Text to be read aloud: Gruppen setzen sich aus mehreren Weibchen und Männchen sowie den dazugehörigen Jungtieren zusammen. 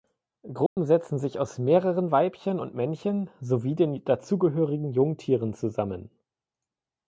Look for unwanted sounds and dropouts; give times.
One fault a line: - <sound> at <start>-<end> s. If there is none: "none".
- dropout at 0.7-0.8 s